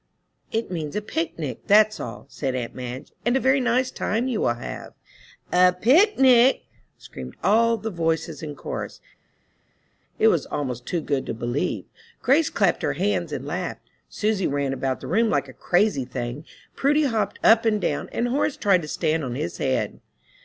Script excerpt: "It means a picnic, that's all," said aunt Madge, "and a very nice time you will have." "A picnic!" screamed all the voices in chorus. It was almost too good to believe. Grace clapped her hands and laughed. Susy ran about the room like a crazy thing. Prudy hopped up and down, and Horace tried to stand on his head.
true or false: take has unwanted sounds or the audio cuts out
false